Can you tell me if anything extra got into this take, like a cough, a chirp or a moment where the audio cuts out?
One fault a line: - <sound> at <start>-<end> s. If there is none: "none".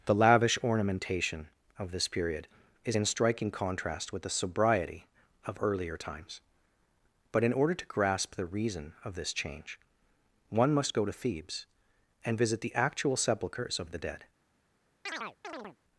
- chirp at 15.1-15.8 s